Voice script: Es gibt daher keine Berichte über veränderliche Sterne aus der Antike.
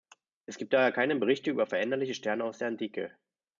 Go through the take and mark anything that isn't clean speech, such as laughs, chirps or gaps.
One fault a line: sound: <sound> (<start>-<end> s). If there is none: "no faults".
no faults